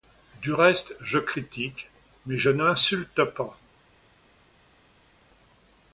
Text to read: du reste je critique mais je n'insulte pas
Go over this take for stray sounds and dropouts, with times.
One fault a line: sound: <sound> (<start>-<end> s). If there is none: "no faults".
no faults